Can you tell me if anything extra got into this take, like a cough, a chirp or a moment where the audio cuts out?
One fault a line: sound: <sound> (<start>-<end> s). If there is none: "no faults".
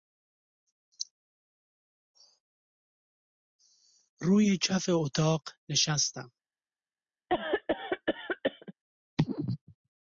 sound: cough (7.3-8.7 s)